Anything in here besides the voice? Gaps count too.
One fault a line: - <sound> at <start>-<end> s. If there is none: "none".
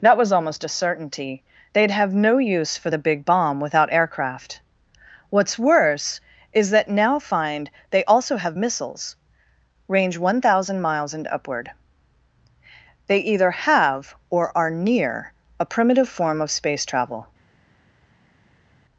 none